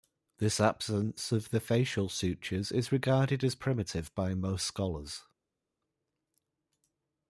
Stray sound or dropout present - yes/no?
no